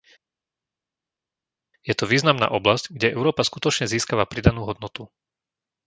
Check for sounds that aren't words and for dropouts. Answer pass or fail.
pass